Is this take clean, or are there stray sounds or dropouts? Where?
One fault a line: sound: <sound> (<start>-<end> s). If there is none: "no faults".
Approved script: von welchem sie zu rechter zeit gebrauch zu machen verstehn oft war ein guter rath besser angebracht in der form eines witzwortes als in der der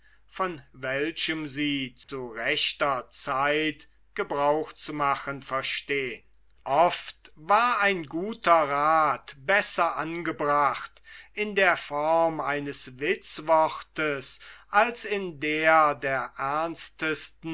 sound: dropout (2.0-2.1 s)